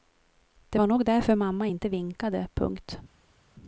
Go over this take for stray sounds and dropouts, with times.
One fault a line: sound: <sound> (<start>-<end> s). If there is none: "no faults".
no faults